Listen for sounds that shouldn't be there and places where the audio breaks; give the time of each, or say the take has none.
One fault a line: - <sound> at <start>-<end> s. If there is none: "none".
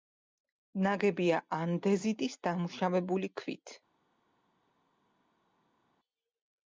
none